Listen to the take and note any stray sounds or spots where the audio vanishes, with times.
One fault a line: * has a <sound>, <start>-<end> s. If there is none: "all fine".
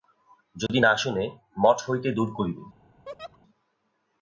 * has a dropout, 0.7-0.7 s
* has a laugh, 3.1-3.4 s